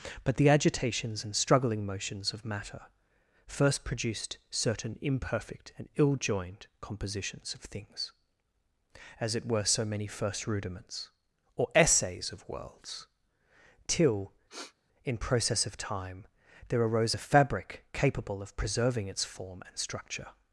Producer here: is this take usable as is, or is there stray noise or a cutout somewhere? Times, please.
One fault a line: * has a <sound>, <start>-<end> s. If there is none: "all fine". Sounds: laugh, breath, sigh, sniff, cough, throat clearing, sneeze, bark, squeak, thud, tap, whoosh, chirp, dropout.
* has a sniff, 14.5-14.7 s